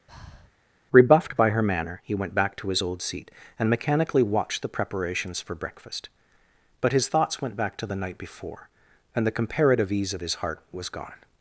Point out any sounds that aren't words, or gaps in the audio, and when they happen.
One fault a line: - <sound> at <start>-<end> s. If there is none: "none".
- breath at 0.1-0.5 s